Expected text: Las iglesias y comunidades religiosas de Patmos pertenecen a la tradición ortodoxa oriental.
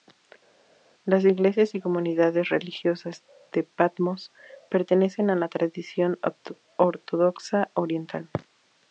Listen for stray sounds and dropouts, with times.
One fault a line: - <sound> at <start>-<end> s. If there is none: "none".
none